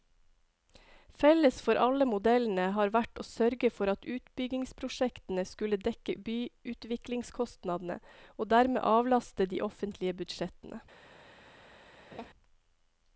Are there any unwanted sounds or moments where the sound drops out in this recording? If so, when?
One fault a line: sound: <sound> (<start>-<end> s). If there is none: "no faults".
sound: laugh (12.1-12.3 s)